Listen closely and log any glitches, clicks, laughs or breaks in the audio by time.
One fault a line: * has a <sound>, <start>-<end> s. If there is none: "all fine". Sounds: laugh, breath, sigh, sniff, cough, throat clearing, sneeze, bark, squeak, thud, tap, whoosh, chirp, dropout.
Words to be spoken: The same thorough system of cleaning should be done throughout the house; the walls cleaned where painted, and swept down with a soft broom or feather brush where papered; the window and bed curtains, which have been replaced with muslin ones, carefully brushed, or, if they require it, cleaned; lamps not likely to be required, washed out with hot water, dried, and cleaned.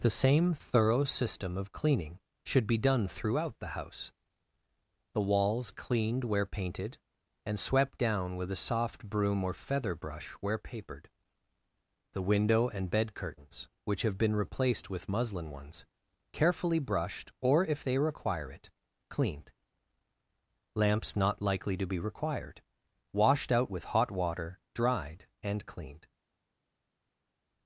all fine